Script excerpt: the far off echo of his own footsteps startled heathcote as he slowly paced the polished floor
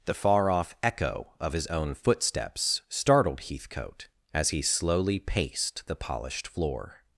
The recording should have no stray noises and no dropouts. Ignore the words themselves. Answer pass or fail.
pass